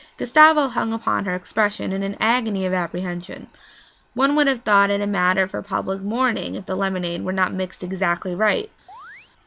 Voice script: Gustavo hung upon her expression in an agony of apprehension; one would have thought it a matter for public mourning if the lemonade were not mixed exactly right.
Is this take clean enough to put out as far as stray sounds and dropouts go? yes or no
no